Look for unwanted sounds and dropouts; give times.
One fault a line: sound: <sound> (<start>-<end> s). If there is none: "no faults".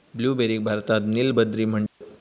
sound: dropout (1.9-2.0 s)